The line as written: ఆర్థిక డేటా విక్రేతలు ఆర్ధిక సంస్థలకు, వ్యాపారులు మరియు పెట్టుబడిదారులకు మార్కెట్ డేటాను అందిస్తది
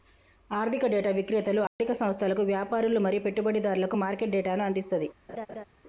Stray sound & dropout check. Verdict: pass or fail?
fail